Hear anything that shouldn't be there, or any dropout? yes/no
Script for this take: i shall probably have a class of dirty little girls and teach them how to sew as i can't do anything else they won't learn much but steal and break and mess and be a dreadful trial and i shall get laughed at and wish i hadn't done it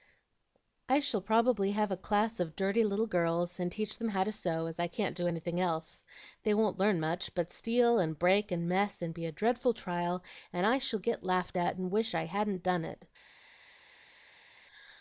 no